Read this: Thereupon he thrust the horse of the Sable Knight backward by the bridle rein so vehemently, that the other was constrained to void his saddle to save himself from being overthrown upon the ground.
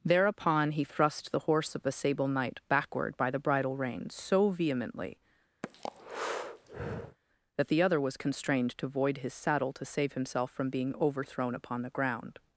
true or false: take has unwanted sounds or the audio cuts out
true